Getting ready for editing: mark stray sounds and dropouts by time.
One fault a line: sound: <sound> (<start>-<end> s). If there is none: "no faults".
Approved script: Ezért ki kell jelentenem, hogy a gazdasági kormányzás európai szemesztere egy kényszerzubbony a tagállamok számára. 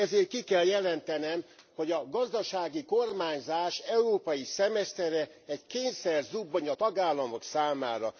no faults